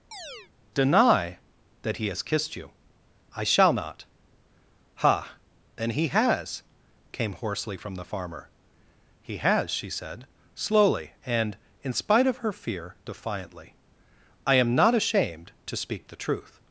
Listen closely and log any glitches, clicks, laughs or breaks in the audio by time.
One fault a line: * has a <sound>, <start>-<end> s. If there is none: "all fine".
* has a chirp, 0.1-0.5 s